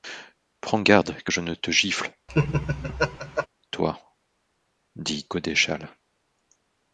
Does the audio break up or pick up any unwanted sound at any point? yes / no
yes